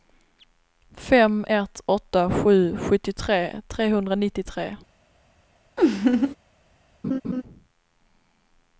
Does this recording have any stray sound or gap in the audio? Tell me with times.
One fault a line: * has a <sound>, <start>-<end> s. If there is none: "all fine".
* has a laugh, 5.8-6.4 s
* has a laugh, 7.0-7.4 s